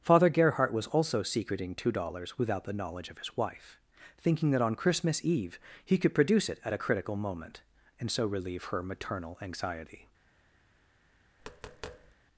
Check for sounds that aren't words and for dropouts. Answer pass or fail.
fail